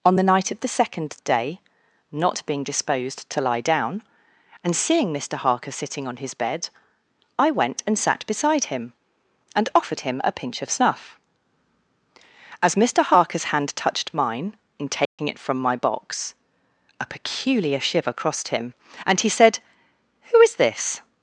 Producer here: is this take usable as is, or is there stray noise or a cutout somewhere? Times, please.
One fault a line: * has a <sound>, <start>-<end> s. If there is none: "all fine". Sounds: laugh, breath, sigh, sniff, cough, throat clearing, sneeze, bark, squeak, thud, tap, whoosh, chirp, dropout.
* has a dropout, 15.1-15.2 s